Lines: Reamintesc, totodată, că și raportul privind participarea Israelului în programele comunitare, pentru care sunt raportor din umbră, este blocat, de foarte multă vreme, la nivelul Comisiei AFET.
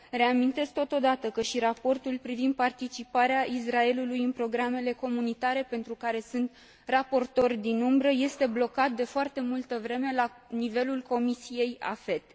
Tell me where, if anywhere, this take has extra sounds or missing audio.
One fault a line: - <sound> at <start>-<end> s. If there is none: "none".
none